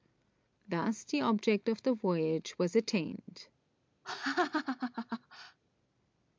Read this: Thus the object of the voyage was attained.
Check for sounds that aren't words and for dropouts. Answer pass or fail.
fail